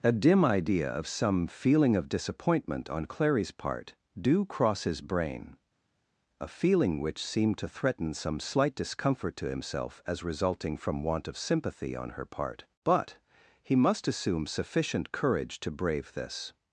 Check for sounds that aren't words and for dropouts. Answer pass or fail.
pass